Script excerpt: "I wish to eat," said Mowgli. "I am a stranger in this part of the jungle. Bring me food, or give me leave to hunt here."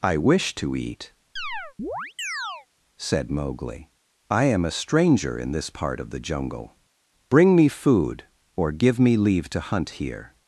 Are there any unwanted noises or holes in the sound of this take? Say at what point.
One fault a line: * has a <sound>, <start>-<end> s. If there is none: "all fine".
* has a chirp, 1.4-2.7 s